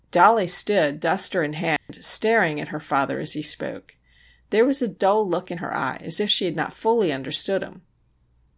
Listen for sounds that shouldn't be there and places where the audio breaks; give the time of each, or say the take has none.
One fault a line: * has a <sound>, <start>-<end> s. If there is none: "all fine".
* has a dropout, 1.8-1.9 s